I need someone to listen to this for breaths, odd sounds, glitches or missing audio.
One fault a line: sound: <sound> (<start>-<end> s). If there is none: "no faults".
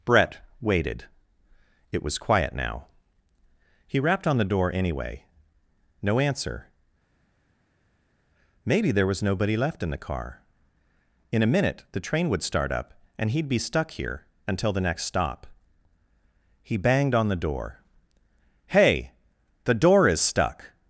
no faults